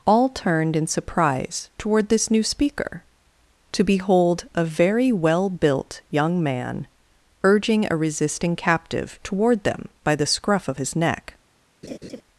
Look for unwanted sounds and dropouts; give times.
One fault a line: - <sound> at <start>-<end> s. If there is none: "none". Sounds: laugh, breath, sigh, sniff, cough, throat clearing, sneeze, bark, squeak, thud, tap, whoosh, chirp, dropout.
- laugh at 11.8-12.2 s